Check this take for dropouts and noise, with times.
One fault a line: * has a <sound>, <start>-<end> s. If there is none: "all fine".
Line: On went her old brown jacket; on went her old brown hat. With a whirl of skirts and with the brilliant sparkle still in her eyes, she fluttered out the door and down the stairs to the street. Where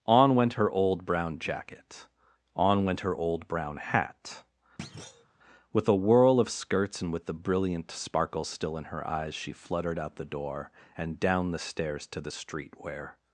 * has a thud, 4.8-5.3 s